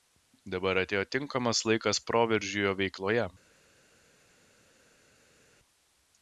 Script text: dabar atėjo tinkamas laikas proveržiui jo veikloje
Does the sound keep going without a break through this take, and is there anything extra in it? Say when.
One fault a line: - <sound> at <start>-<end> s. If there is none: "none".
none